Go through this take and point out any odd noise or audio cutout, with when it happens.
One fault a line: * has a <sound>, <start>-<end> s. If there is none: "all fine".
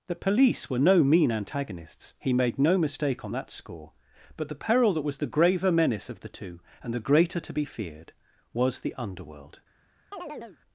* has a chirp, 10.1-10.6 s